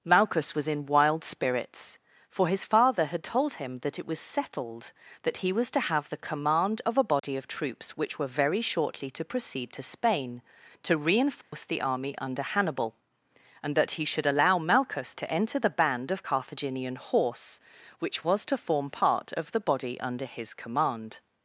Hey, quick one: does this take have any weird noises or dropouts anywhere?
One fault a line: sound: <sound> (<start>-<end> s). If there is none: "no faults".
sound: dropout (7.2-7.2 s)
sound: dropout (11.4-11.5 s)